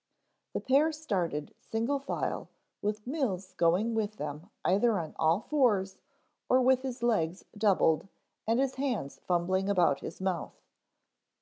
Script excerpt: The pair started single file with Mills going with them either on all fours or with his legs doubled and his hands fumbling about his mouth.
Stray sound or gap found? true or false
false